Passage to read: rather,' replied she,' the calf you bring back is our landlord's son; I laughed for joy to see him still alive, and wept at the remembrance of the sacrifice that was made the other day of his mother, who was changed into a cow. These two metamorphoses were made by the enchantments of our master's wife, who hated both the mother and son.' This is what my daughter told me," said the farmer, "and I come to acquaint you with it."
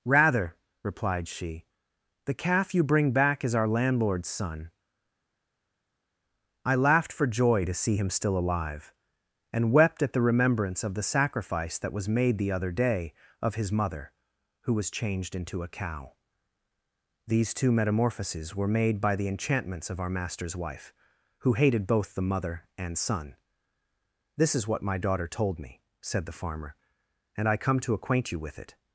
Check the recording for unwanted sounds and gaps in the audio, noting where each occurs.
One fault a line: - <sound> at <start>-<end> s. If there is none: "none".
none